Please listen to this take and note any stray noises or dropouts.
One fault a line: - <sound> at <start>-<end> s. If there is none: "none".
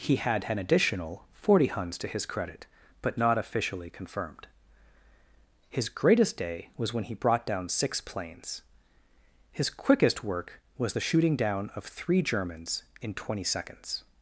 none